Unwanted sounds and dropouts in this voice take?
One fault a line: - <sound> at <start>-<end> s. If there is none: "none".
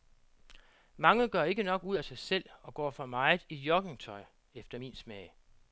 none